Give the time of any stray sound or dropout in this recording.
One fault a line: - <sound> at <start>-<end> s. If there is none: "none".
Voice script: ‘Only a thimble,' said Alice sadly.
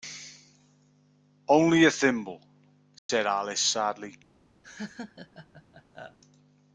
- dropout at 3.0-3.1 s
- laugh at 4.6-6.2 s